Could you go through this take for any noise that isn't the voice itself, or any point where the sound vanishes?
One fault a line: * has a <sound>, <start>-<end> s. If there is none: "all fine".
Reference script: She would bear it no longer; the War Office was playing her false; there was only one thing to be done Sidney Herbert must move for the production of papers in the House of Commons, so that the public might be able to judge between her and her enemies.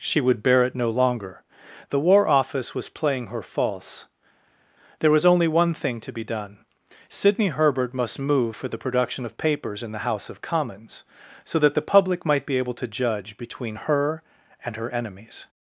all fine